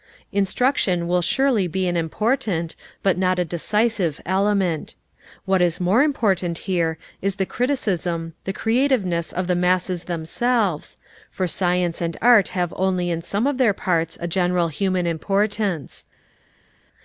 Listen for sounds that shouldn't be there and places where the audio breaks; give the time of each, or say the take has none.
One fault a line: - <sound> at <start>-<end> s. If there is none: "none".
none